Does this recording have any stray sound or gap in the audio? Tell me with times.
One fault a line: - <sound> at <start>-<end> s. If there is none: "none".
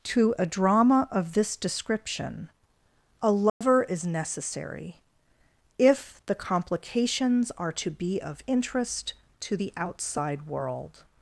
- dropout at 3.5-3.6 s